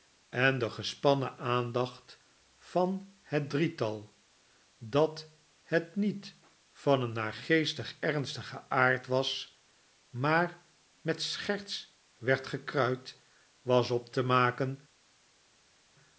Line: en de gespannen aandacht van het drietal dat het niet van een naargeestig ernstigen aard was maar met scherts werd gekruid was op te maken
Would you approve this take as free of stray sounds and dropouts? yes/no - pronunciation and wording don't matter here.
yes